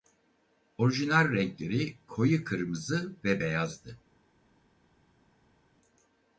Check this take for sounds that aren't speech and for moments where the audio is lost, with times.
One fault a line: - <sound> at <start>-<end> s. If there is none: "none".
none